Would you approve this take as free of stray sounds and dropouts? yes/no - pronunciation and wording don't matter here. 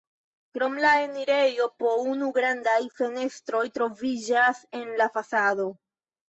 yes